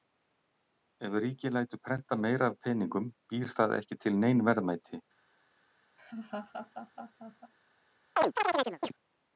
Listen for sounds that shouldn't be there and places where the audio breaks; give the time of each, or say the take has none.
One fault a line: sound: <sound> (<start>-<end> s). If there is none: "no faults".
sound: laugh (6.0-7.5 s)
sound: chirp (8.2-8.9 s)